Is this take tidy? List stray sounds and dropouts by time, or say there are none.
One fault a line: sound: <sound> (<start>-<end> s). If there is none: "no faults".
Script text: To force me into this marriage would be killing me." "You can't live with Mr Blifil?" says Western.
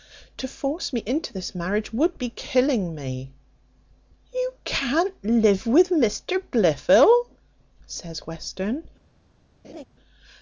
sound: laugh (9.6-9.8 s)